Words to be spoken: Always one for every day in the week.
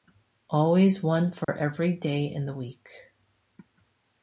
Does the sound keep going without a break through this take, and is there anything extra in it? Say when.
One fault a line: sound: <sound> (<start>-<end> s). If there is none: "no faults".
sound: dropout (1.4-1.5 s)